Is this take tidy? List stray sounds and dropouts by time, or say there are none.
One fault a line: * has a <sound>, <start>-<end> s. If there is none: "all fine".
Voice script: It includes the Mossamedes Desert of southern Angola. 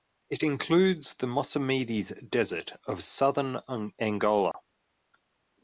* has a dropout, 4.5-4.5 s